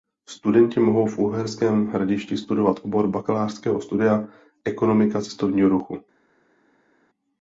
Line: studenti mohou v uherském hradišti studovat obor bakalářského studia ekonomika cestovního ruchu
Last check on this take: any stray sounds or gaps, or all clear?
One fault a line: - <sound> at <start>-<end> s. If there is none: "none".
none